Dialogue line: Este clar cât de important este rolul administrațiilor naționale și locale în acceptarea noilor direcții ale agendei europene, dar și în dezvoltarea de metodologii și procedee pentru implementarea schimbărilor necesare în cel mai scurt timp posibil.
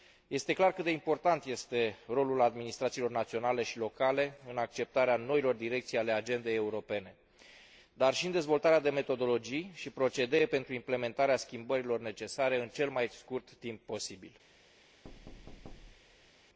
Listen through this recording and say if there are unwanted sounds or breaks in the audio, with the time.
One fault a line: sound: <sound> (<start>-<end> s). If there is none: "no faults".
sound: thud (15.0-16.3 s)